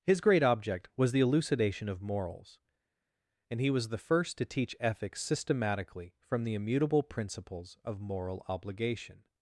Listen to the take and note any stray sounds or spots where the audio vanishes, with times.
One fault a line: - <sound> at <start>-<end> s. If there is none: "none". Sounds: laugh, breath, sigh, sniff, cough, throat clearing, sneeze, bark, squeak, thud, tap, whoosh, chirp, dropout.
none